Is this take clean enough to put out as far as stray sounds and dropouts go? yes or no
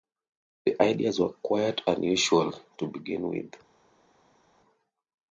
yes